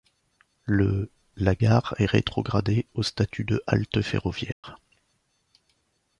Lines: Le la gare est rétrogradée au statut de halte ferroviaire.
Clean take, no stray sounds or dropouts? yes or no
no